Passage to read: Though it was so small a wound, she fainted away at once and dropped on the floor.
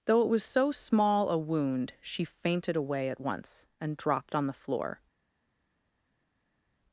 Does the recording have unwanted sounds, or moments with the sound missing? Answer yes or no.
no